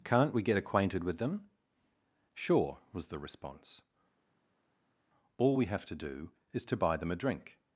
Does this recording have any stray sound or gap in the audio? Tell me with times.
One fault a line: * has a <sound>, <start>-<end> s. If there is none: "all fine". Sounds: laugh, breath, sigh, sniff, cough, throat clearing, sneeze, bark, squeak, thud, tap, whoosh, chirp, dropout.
all fine